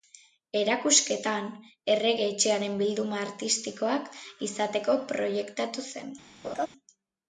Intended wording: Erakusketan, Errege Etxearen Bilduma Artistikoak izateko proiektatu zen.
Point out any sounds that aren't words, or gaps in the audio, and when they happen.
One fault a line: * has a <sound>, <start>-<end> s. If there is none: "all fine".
* has a laugh, 6.4-6.7 s